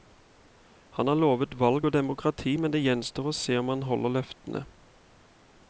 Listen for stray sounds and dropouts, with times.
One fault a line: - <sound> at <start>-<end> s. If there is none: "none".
none